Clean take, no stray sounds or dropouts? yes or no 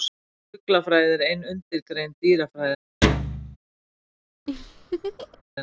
no